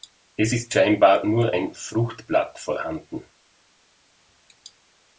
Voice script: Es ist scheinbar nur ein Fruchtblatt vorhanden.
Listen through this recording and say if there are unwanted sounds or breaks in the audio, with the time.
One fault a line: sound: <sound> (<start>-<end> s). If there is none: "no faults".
no faults